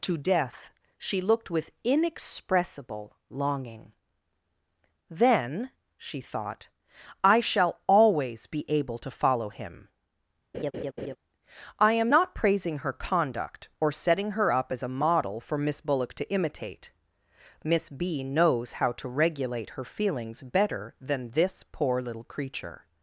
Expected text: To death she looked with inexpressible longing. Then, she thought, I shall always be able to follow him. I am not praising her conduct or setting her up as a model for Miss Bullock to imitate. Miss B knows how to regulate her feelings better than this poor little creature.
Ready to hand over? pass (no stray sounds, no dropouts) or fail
fail